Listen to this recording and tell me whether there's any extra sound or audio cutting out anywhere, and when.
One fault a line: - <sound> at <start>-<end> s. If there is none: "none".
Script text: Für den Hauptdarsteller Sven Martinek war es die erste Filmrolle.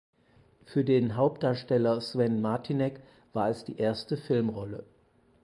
none